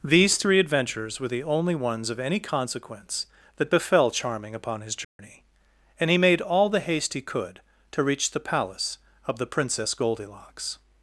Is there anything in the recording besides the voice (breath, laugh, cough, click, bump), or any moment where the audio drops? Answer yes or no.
yes